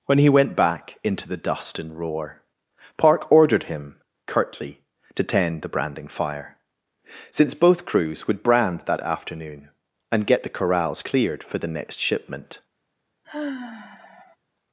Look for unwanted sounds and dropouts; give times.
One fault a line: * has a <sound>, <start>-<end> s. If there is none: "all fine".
* has a sigh, 13.2-14.4 s